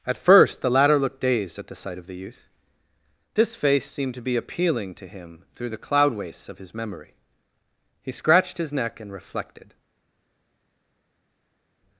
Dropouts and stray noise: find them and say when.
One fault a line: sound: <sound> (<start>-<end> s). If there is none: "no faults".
no faults